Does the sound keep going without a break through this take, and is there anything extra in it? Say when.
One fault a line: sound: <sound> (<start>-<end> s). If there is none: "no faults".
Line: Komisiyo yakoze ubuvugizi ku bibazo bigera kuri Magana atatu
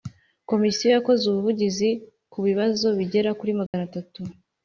sound: dropout (3.7-3.7 s)